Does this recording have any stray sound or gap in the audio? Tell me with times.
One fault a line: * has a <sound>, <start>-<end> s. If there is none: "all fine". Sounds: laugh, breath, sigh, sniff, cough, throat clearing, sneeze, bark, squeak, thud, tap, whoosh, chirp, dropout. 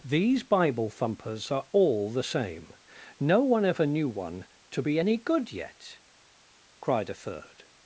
all fine